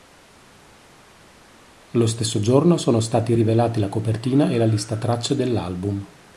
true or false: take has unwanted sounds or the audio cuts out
false